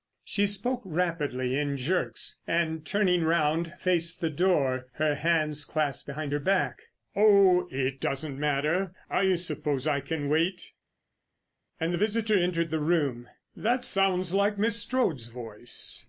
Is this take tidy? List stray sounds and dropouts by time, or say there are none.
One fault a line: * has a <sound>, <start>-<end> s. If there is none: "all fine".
all fine